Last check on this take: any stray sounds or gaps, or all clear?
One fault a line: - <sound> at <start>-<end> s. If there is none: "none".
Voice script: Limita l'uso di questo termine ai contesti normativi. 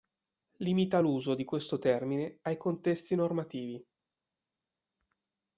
none